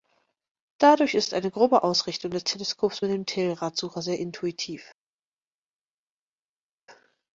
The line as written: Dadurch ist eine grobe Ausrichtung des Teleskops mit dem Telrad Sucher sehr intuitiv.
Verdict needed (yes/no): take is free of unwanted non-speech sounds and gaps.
yes